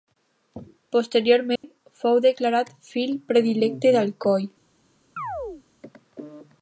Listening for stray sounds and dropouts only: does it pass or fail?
fail